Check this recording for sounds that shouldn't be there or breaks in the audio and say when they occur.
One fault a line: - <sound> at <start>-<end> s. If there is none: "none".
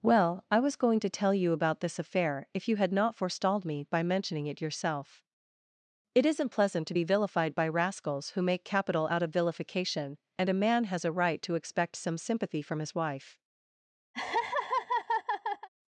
- laugh at 14.1-15.7 s